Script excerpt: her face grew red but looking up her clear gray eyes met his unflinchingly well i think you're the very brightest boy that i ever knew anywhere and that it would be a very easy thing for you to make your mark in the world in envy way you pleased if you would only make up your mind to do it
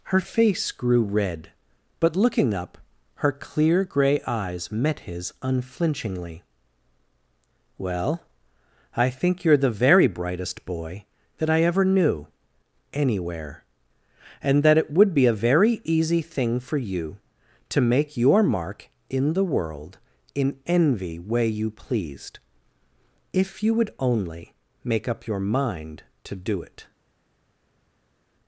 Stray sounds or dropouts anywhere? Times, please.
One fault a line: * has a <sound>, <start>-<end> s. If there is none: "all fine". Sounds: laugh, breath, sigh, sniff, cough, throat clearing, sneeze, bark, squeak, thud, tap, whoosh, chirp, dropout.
all fine